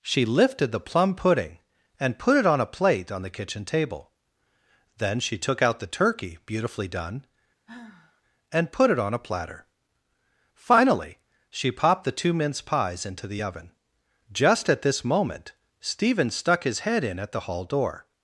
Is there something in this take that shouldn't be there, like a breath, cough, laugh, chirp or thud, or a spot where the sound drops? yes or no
yes